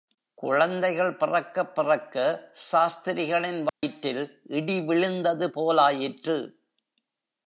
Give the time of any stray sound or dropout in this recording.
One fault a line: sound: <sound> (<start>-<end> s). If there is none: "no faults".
sound: dropout (3.7-3.8 s)